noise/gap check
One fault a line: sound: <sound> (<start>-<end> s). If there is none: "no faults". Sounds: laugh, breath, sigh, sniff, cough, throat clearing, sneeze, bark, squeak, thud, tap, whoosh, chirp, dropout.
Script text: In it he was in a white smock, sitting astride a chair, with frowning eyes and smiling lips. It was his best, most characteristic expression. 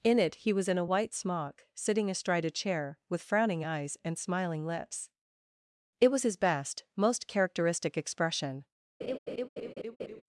sound: laugh (9.0-10.2 s)